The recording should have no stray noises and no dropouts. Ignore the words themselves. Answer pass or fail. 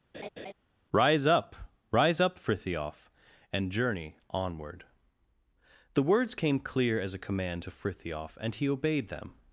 fail